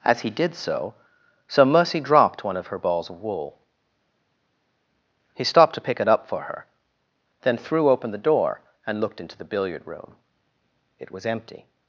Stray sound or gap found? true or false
false